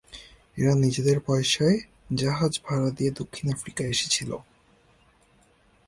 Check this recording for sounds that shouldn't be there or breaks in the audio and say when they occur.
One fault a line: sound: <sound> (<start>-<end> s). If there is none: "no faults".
no faults